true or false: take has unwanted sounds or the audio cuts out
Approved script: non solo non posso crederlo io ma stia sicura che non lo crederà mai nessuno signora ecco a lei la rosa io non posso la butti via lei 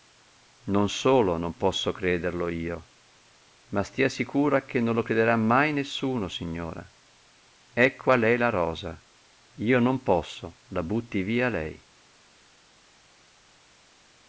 false